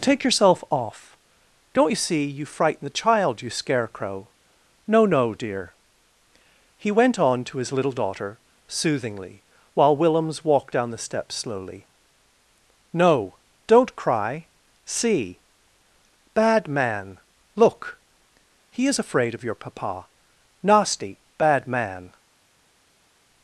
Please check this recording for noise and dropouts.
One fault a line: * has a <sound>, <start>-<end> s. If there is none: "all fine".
all fine